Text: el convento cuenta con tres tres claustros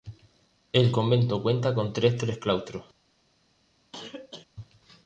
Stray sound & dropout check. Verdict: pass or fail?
fail